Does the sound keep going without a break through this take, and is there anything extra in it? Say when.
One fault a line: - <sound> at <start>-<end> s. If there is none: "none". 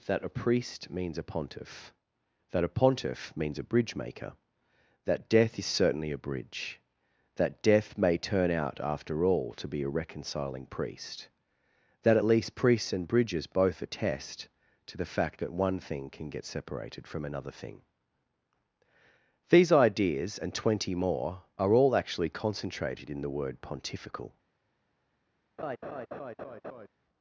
- laugh at 25.6-26.9 s